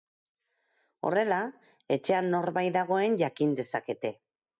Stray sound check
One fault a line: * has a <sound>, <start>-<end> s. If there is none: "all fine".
all fine